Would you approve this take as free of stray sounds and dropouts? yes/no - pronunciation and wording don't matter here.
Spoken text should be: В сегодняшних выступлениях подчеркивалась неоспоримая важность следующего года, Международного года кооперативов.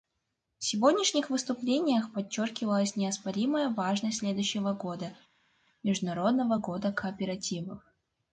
yes